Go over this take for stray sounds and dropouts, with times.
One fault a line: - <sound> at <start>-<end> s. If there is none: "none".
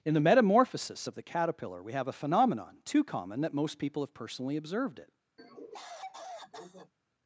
- cough at 5.4-6.9 s